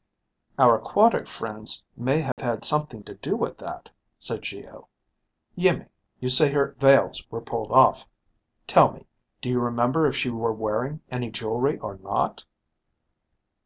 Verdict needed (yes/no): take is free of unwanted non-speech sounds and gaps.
no